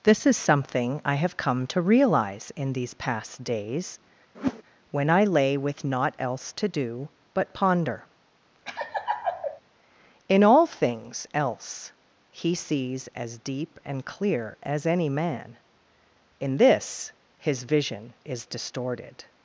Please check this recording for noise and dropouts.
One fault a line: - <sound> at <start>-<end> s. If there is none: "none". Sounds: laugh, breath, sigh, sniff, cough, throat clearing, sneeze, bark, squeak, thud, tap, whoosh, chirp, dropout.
- whoosh at 4.3-4.6 s
- laugh at 8.7-9.6 s